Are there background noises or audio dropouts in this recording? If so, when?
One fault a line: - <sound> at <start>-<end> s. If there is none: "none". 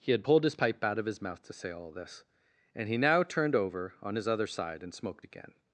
none